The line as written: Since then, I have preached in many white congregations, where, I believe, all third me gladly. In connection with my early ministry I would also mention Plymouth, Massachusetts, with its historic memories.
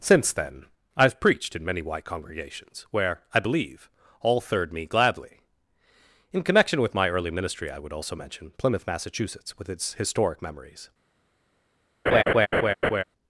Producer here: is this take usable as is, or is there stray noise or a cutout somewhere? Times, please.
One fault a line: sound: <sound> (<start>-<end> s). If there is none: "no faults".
sound: laugh (12.1-13.0 s)